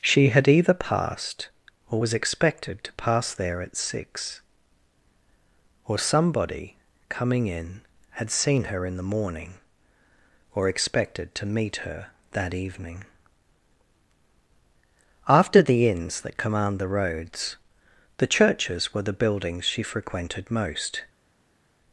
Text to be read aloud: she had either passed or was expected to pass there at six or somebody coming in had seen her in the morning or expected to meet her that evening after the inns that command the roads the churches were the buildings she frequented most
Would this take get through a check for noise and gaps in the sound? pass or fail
pass